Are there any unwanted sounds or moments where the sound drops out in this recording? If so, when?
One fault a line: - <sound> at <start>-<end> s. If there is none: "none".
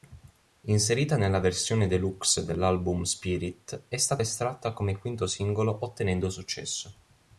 none